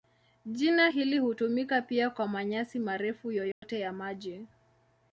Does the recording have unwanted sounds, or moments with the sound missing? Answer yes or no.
yes